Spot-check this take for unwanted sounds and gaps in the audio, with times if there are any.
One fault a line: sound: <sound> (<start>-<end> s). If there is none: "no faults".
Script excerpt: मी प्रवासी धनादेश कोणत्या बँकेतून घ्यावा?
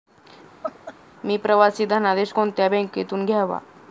sound: laugh (0.6-0.9 s)